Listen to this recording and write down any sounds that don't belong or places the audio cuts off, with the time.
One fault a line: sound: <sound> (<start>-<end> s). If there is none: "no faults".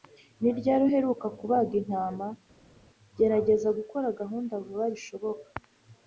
no faults